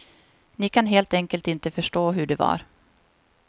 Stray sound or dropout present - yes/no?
no